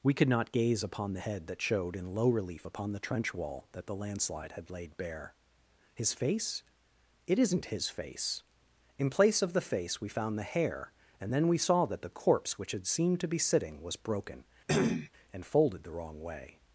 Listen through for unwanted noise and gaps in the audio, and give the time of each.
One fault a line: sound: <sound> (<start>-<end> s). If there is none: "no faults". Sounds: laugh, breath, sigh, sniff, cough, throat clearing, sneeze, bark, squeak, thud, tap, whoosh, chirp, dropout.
sound: cough (14.7-15.1 s)